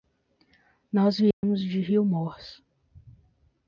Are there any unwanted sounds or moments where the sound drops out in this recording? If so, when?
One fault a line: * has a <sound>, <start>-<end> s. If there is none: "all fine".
* has a dropout, 1.3-1.4 s